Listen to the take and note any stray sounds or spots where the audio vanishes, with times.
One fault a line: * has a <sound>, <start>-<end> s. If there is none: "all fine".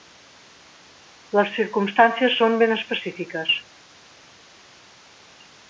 all fine